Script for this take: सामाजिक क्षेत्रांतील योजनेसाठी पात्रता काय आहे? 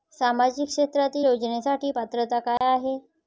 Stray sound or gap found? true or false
true